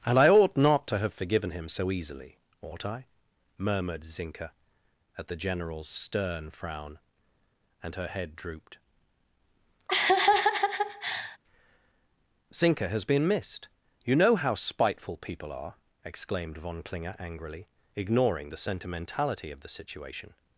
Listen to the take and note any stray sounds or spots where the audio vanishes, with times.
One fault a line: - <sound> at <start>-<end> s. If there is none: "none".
- laugh at 9.9-11.4 s